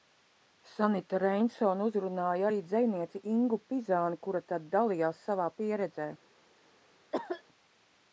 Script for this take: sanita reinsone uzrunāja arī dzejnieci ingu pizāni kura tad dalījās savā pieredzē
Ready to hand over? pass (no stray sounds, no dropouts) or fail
fail